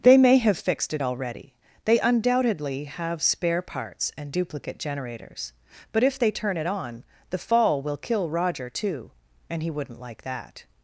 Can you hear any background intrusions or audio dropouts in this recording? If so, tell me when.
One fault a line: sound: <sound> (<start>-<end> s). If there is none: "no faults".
no faults